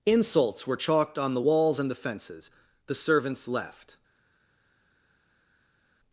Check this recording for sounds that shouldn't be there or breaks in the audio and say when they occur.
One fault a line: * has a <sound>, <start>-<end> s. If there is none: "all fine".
all fine